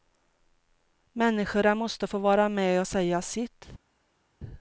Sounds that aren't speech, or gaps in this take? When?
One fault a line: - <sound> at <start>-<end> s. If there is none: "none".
none